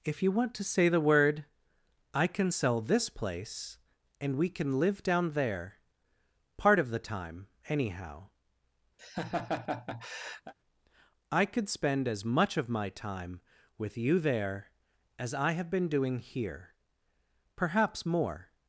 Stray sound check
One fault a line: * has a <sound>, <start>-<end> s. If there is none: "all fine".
* has a laugh, 9.0-10.5 s